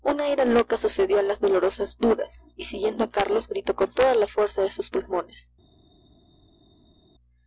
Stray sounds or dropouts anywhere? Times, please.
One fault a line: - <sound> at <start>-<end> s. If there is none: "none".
none